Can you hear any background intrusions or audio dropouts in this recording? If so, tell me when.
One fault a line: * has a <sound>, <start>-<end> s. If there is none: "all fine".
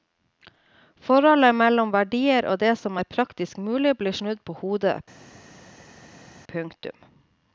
all fine